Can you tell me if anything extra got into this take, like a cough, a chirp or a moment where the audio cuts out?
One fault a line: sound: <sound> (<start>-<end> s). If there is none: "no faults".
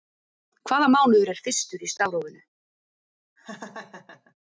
sound: laugh (3.4-4.3 s)